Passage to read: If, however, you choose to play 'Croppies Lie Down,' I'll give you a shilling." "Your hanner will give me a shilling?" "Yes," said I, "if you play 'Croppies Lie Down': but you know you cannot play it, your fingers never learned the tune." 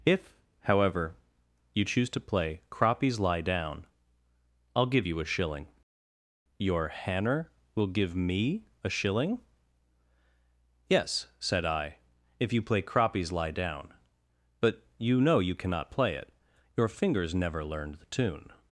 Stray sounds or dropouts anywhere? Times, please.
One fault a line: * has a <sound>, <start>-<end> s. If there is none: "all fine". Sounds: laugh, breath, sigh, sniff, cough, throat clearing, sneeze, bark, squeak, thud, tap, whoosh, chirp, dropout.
all fine